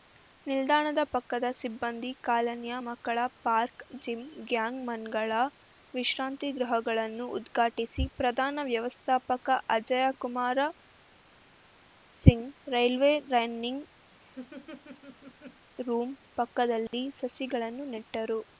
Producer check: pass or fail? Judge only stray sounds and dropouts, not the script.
fail